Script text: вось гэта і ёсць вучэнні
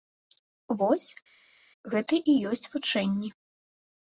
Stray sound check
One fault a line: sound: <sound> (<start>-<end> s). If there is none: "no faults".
no faults